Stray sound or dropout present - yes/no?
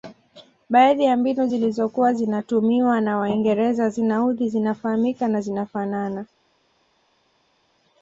no